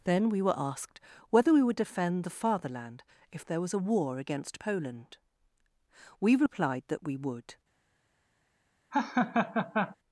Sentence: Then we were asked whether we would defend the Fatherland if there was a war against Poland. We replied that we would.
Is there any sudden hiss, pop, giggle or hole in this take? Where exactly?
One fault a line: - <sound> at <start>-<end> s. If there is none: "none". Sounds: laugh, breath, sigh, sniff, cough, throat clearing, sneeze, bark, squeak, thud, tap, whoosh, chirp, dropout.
- laugh at 8.9-10.0 s